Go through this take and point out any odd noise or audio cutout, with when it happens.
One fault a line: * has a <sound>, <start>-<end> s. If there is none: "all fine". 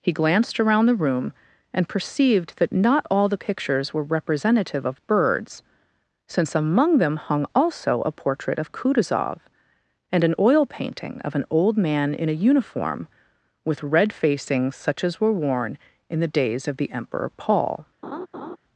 * has a laugh, 18.0-18.6 s